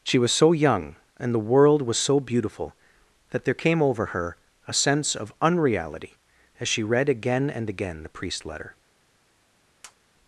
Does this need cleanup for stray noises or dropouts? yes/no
yes